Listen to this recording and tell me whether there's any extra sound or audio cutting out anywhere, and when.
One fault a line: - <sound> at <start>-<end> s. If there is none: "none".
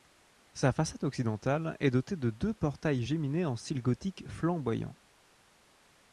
none